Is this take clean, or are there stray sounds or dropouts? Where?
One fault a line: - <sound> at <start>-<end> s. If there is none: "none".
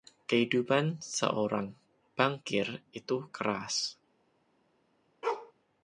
- bark at 5.2-5.5 s